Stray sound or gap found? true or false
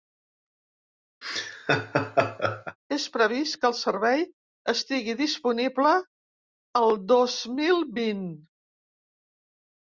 true